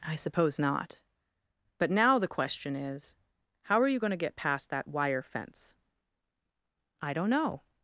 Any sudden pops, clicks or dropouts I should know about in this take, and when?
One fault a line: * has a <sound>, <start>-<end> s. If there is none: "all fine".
all fine